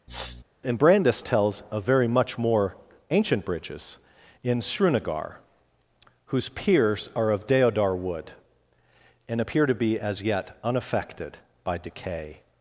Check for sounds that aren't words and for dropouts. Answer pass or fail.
fail